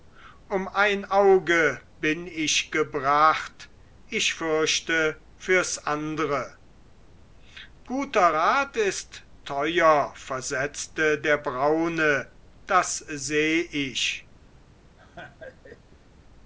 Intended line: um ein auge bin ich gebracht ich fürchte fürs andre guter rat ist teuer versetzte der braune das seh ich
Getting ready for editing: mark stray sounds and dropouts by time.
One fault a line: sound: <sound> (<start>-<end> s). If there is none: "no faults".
sound: laugh (15.0-16.1 s)